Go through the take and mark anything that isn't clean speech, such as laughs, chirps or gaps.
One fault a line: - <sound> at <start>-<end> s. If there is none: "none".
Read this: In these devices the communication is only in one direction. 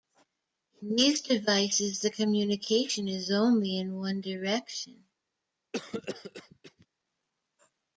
- cough at 5.7-6.9 s